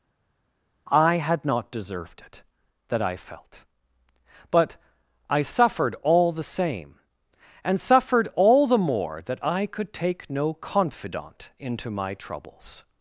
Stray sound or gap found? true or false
false